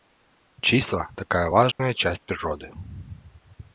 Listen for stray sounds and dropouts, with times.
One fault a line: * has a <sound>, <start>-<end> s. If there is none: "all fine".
* has a dropout, 1.7-1.8 s